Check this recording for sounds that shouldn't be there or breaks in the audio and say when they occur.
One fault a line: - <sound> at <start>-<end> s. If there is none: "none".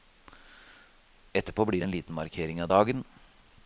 none